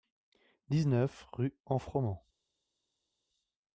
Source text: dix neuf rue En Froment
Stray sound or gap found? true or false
false